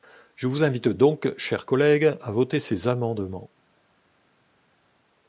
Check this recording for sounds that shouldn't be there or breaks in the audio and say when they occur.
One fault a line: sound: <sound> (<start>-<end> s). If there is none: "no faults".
no faults